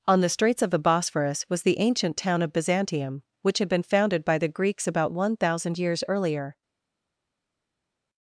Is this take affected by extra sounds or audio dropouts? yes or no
no